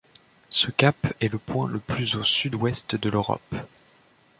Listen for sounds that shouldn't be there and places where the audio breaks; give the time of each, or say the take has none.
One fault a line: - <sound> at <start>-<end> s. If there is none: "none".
none